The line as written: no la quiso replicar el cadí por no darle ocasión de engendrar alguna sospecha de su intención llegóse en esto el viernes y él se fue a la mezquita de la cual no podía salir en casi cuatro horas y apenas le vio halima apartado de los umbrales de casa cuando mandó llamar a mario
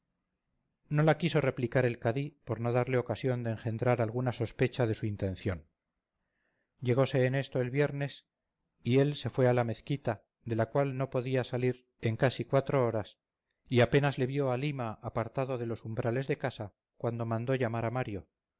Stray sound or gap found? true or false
false